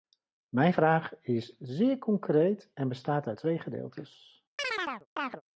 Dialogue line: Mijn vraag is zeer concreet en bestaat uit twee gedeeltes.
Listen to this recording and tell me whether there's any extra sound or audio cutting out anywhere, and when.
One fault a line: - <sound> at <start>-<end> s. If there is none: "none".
- chirp at 4.6-5.4 s